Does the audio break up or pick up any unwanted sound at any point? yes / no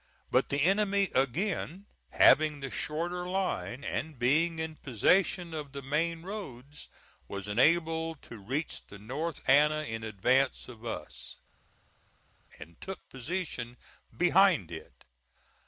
no